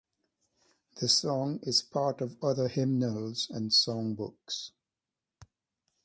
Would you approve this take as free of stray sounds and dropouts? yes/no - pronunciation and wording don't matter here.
yes